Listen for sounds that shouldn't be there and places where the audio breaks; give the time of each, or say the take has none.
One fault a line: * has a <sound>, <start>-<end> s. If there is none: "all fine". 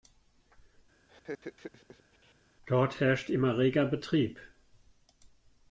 * has a laugh, 1.1-2.3 s